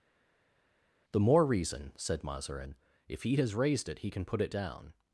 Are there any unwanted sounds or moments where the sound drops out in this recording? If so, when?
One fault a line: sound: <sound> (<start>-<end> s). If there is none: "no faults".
no faults